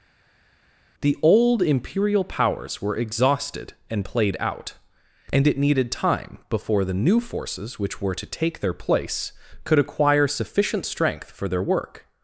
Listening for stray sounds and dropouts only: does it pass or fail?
pass